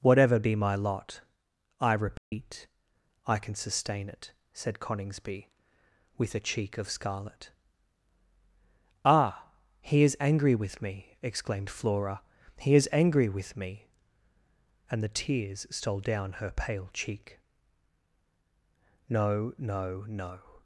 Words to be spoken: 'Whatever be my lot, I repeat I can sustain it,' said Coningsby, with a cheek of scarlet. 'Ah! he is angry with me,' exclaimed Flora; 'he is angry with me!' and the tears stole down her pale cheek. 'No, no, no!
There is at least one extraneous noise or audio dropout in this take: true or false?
true